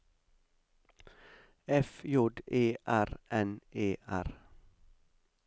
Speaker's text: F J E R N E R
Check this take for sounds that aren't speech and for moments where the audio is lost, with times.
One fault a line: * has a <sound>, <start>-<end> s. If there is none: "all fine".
all fine